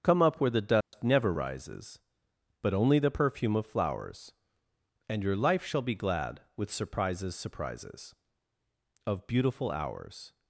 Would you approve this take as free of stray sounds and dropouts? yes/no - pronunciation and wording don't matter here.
no